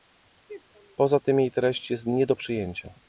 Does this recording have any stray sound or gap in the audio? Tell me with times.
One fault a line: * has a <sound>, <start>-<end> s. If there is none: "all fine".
all fine